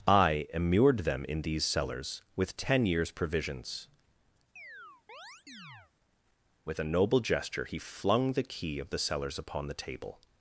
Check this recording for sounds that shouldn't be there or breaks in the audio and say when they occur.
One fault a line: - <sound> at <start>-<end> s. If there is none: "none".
- chirp at 4.6-5.9 s